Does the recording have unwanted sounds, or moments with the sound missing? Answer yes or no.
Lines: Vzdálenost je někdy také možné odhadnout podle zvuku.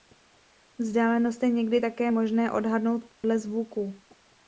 yes